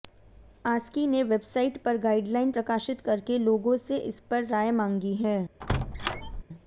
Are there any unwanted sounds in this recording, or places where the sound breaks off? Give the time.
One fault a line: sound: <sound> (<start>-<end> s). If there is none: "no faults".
sound: squeak (5.6-6.4 s)